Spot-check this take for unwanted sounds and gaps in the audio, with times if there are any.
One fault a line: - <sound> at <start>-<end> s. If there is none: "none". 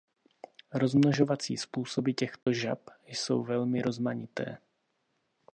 - dropout at 2.4-2.5 s